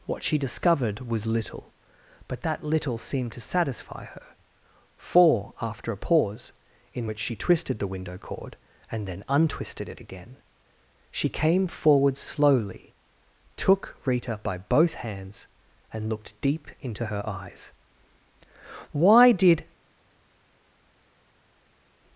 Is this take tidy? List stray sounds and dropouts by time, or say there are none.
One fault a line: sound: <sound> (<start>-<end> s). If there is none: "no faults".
no faults